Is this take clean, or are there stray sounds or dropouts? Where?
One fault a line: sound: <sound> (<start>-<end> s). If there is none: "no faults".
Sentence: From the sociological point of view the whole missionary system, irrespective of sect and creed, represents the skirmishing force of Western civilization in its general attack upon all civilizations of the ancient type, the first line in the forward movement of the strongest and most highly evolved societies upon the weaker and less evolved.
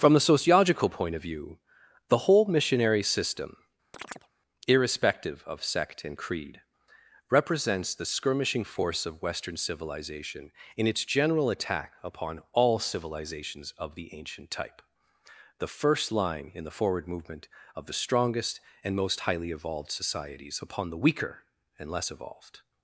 sound: chirp (3.9-4.3 s)